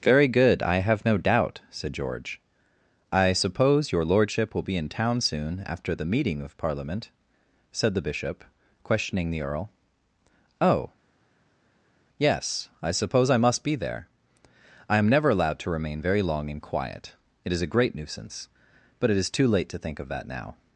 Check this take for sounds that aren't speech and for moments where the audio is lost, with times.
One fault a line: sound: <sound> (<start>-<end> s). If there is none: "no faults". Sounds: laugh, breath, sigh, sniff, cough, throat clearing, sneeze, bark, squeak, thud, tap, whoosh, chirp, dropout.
no faults